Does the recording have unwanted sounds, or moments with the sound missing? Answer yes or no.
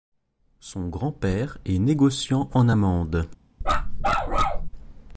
yes